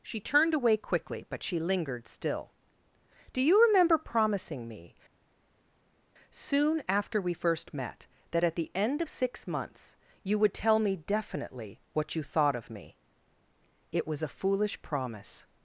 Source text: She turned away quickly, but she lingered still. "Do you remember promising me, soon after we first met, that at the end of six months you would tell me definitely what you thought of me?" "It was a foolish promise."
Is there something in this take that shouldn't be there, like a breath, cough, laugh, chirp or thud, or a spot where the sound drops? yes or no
no